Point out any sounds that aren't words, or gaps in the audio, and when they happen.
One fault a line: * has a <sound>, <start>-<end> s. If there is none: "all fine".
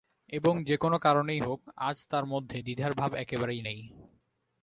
all fine